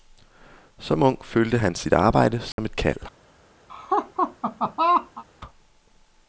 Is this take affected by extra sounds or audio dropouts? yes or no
yes